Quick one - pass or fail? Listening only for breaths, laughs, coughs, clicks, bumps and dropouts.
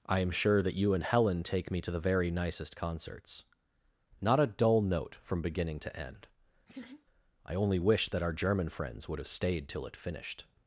fail